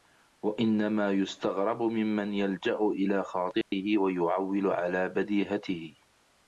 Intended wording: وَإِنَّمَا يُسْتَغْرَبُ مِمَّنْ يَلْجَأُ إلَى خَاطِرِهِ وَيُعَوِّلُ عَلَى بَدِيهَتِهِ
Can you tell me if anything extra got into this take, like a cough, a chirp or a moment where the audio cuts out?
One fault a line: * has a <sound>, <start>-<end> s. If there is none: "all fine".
* has a dropout, 3.6-3.7 s